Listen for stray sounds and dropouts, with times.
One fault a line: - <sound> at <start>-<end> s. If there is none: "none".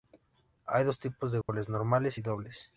- dropout at 1.4-1.5 s